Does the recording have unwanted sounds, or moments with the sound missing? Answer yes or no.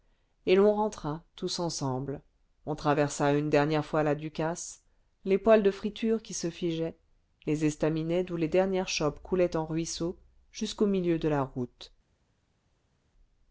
no